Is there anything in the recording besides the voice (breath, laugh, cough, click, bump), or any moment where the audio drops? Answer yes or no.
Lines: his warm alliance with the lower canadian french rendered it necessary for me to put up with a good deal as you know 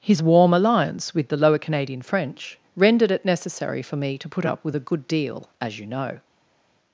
no